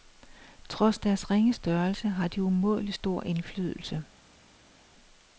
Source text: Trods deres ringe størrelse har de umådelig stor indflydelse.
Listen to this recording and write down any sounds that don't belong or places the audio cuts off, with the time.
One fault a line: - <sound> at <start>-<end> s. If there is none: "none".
none